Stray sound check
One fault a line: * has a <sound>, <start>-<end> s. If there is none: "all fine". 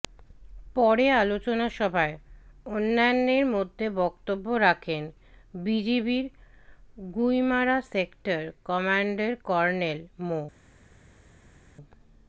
all fine